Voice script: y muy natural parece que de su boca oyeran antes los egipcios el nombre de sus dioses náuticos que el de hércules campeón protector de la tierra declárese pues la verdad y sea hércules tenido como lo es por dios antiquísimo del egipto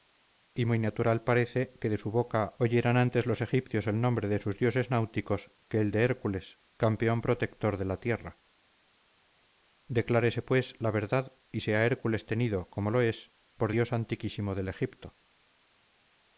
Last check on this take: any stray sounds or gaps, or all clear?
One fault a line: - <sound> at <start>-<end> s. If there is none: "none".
none